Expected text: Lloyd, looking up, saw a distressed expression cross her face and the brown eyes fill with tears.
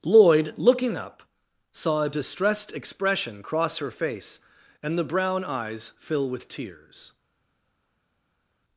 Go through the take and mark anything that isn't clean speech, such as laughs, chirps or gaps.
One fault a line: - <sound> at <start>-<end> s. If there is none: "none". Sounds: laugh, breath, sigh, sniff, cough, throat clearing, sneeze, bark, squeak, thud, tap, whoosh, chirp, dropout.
none